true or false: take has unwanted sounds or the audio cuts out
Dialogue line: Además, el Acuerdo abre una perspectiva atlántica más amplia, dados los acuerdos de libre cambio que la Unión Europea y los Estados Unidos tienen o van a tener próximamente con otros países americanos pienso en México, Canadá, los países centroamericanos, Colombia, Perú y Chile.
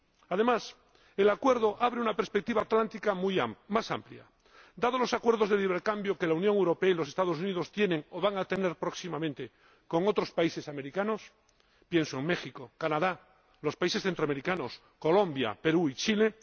false